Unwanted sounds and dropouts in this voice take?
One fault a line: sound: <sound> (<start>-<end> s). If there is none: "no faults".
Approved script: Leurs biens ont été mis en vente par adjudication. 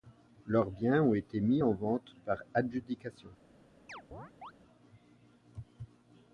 sound: chirp (3.9-4.5 s)